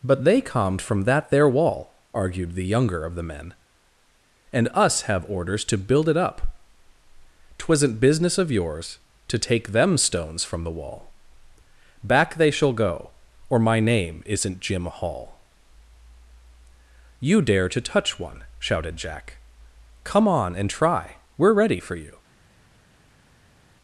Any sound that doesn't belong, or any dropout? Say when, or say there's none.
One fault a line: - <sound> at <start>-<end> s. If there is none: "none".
none